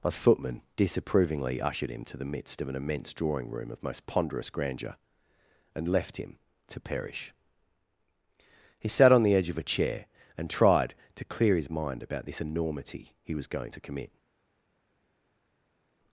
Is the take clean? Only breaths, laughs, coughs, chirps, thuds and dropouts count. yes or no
yes